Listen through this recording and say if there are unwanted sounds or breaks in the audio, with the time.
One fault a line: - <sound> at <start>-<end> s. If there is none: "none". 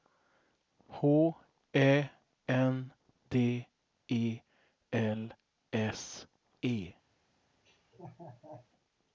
- laugh at 7.6-8.7 s